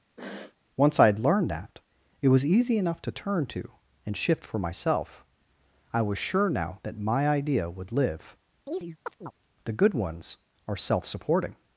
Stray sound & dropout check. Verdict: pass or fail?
fail